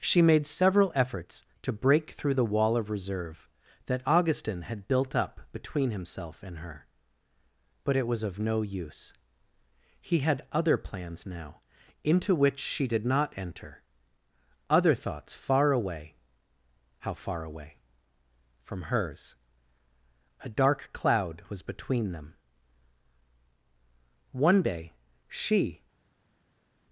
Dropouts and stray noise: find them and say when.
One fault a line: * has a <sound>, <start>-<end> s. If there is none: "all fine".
all fine